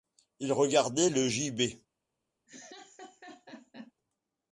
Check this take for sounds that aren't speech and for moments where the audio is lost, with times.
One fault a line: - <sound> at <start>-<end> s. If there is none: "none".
- laugh at 2.5-3.9 s